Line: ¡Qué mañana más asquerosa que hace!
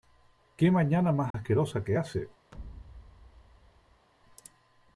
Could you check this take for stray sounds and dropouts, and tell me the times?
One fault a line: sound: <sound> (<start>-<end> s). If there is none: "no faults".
sound: dropout (1.3-1.3 s)
sound: thud (2.5-4.1 s)